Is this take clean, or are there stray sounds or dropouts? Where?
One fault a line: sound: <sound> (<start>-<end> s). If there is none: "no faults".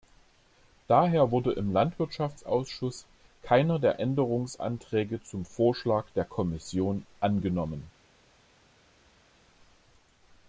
no faults